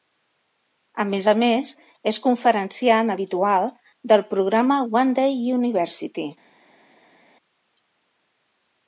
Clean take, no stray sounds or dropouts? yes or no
yes